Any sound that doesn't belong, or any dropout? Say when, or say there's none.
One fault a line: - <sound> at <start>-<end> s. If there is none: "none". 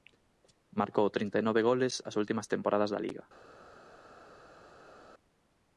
none